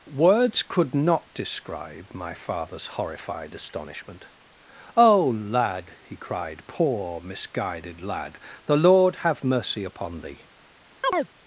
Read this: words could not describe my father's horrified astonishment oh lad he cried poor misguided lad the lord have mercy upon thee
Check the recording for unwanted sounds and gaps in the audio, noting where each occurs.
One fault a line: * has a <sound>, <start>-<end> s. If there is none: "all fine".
* has a chirp, 11.0-11.3 s